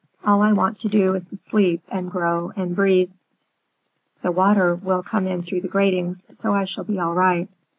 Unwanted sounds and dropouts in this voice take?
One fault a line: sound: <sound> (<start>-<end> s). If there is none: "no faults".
no faults